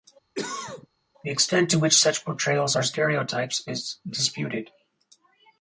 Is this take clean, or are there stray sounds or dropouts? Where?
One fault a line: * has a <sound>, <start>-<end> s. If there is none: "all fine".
* has a cough, 0.3-0.9 s